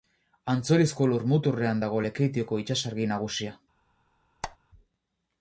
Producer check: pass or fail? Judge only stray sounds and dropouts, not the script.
fail